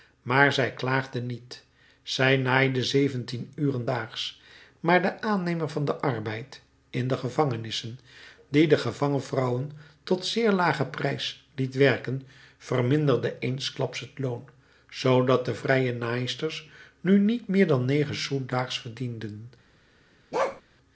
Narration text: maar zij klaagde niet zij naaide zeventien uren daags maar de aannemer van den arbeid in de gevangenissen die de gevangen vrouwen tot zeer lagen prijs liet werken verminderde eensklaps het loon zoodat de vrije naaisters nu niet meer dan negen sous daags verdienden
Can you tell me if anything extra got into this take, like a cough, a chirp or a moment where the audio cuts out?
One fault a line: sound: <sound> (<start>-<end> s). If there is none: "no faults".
sound: bark (20.3-20.6 s)